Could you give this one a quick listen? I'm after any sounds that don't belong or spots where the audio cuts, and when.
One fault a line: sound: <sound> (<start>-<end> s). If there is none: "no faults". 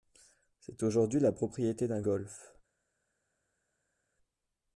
no faults